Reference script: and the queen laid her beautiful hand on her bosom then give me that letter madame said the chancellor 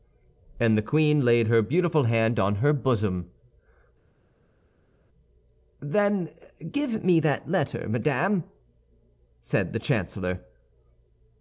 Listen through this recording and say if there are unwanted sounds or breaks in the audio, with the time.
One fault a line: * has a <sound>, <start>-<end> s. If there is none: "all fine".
all fine